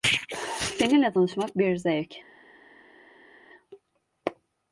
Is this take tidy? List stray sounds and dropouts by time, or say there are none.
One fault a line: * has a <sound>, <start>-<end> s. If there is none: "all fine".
all fine